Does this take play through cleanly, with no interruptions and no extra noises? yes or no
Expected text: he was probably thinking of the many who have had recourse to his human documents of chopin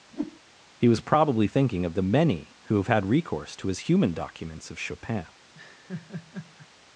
no